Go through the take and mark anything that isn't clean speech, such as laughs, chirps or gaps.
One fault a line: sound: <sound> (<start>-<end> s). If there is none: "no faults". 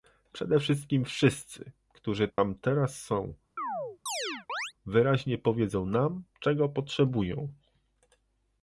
sound: dropout (2.3-2.4 s)
sound: chirp (3.6-4.7 s)